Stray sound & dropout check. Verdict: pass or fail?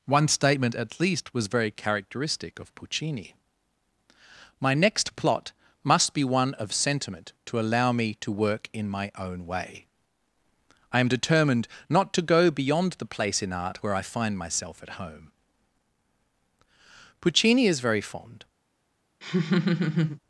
fail